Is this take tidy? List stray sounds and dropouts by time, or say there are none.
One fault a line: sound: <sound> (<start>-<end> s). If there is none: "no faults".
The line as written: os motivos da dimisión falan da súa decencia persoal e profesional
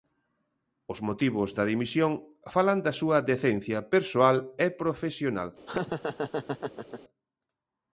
sound: laugh (5.7-7.0 s)